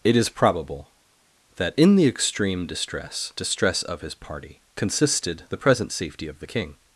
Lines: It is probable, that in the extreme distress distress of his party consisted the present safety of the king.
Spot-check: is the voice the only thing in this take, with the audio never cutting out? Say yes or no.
yes